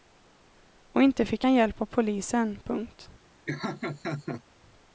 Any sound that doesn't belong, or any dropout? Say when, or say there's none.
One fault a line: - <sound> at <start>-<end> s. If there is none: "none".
- laugh at 3.5-4.4 s